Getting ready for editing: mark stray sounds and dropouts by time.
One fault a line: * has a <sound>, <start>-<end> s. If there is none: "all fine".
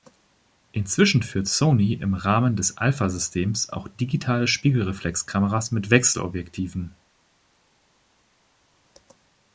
all fine